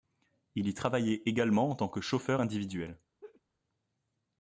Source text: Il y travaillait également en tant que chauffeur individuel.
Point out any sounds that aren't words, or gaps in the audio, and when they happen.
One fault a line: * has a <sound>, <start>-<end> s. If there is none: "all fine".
* has a laugh, 3.2-3.4 s